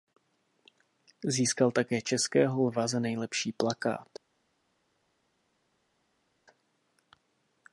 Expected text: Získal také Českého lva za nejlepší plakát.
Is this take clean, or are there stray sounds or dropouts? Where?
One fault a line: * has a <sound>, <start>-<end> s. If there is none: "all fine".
all fine